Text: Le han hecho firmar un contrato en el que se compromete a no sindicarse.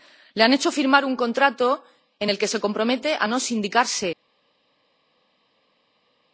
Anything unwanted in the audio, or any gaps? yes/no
no